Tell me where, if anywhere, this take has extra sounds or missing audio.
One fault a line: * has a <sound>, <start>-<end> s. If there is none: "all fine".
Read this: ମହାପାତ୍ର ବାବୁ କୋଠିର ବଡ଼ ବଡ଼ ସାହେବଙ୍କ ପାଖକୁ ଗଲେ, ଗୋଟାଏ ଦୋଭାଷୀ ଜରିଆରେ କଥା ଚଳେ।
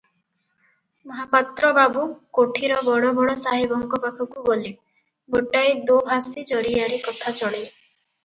all fine